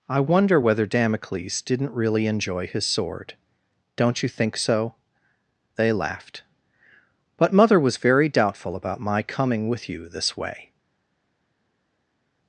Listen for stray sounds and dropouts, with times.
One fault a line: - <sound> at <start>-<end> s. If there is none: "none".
none